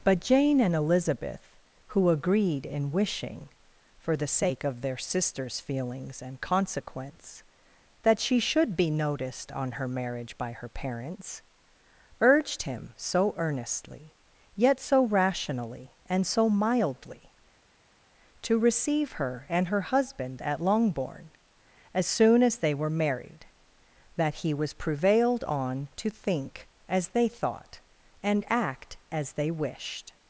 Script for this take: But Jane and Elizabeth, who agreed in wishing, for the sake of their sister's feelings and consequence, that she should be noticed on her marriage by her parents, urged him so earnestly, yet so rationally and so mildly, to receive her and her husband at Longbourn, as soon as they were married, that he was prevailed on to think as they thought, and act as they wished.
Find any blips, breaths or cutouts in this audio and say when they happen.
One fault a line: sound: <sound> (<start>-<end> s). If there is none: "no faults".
no faults